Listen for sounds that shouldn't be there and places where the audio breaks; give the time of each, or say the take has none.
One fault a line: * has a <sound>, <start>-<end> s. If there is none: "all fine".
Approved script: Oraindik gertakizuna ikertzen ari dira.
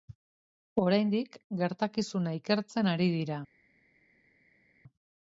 all fine